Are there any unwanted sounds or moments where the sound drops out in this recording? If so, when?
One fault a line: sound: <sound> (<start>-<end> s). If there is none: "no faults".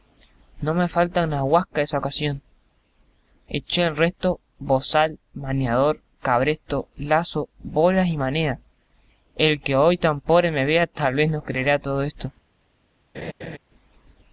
sound: laugh (13.1-13.6 s)